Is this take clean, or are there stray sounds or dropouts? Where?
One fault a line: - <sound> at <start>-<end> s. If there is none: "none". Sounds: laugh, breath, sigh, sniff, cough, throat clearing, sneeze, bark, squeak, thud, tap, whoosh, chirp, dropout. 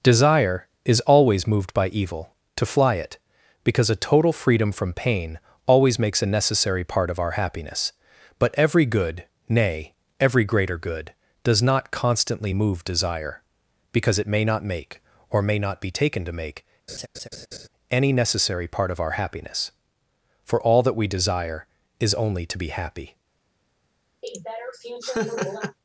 - laugh at 16.9-17.7 s
- laugh at 24.2-25.8 s